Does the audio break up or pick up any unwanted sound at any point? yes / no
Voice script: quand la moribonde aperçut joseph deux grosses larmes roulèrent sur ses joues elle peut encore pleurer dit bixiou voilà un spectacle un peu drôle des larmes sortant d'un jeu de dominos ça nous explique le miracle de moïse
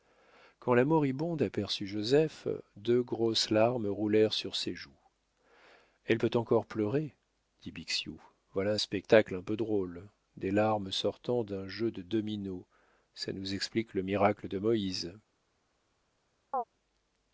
yes